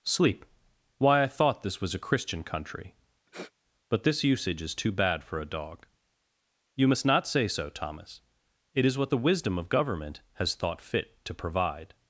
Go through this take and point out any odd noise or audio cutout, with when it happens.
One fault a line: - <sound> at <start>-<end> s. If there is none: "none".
- sniff at 3.3-3.5 s